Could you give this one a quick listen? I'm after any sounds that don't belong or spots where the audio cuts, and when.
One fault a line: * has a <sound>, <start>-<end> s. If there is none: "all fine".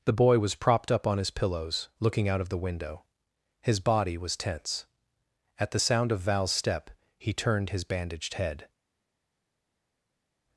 all fine